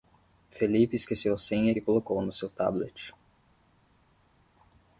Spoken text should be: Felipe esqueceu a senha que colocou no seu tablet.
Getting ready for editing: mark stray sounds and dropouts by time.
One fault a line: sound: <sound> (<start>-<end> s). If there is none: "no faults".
no faults